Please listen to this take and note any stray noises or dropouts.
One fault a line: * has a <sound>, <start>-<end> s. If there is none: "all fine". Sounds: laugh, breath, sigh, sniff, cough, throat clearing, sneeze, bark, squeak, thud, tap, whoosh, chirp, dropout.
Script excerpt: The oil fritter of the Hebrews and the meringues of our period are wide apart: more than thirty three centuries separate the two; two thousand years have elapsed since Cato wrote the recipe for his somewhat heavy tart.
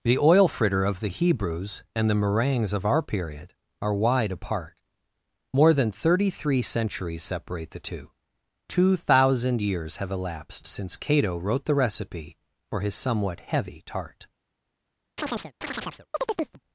* has a chirp, 15.2-16.6 s